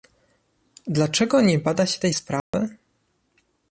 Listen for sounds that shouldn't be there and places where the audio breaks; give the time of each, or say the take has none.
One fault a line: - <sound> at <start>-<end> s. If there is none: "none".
- dropout at 2.4-2.5 s